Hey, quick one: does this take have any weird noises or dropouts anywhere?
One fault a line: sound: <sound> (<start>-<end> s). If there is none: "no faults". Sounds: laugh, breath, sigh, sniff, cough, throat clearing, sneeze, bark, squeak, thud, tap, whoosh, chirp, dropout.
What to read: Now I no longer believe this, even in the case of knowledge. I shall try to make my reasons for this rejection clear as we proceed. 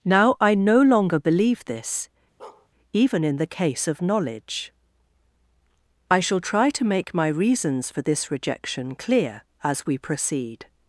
sound: bark (2.4-2.7 s)